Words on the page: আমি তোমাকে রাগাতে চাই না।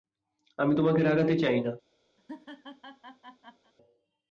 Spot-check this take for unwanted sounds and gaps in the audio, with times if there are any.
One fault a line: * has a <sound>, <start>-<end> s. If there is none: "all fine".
* has a laugh, 2.2-3.7 s